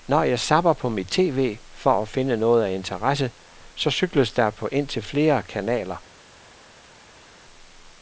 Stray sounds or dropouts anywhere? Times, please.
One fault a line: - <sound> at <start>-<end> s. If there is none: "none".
none